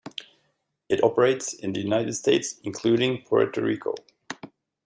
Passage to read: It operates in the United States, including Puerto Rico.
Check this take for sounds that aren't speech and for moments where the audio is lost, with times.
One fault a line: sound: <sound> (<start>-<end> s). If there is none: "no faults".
no faults